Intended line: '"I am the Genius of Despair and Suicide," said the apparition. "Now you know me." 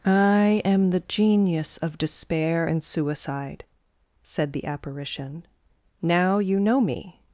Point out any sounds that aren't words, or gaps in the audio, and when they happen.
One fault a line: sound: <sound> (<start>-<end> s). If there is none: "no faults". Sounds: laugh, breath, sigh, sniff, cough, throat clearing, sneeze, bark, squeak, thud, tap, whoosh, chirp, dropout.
no faults